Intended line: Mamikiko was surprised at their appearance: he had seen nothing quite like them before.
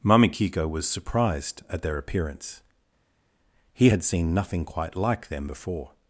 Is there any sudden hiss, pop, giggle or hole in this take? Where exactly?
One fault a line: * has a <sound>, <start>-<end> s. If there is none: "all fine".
all fine